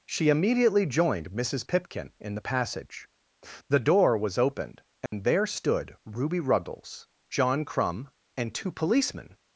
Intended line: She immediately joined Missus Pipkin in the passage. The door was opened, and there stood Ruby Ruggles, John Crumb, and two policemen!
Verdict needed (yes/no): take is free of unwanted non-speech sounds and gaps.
no